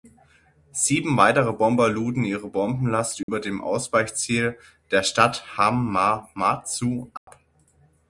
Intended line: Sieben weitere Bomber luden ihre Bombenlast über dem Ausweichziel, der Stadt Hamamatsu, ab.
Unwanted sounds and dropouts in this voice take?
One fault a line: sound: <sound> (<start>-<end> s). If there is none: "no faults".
sound: dropout (3.2-3.3 s)
sound: dropout (7.2-7.3 s)